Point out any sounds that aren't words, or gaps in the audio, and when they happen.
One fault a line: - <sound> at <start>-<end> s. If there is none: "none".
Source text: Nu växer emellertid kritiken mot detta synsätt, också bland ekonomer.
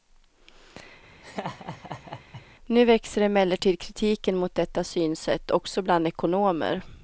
- laugh at 1.2-2.5 s